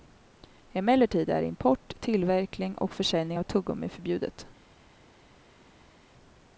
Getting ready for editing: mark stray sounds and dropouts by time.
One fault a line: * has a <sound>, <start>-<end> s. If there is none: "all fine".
all fine